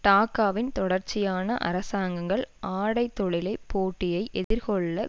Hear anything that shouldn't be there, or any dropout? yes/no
yes